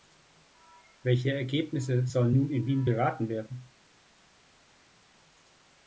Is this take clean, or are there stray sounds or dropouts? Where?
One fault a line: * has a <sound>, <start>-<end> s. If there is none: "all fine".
all fine